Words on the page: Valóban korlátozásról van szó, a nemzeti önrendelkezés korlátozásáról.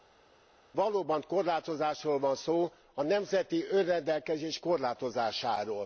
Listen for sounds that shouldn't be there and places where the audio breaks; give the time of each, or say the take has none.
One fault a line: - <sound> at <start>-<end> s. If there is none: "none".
none